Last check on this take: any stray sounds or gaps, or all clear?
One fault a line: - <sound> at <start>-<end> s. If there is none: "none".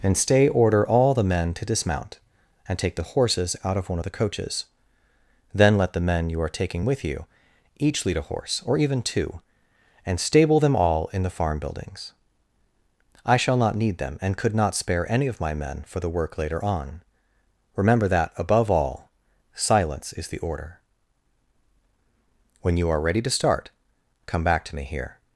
none